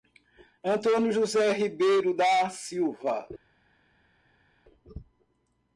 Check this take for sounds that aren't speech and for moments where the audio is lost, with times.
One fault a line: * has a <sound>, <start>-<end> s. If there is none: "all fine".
all fine